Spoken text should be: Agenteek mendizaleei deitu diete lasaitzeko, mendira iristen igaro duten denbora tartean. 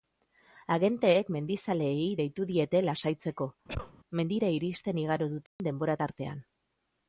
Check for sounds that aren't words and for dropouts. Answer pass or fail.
fail